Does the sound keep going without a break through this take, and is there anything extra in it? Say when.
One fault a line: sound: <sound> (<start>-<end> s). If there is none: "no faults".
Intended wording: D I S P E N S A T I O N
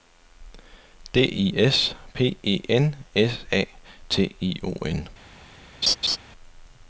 sound: laugh (5.8-6.2 s)